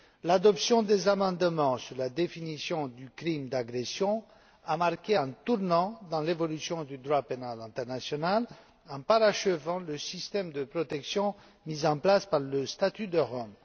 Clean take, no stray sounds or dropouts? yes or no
yes